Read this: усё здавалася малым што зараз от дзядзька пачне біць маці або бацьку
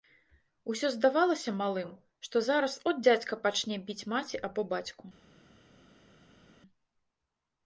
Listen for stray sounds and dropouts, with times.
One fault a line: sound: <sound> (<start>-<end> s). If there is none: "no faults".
no faults